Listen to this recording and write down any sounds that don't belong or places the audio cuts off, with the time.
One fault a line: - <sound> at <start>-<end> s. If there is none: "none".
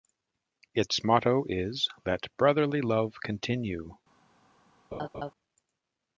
- laugh at 4.9-5.3 s